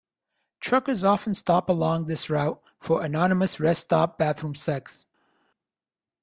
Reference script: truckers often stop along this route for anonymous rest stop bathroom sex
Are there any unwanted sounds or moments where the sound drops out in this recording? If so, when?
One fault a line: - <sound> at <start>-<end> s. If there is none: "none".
none